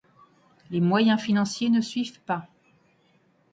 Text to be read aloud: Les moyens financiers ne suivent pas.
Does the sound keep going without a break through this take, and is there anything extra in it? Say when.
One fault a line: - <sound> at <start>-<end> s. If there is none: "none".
none